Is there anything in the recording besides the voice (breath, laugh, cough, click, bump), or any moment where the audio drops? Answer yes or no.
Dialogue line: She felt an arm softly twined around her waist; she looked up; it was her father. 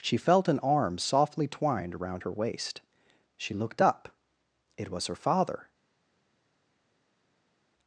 no